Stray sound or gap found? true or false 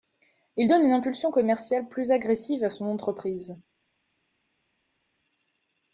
false